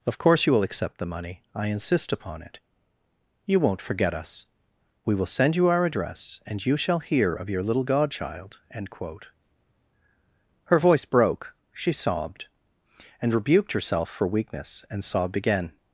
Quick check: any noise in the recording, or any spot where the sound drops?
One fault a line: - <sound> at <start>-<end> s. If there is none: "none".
none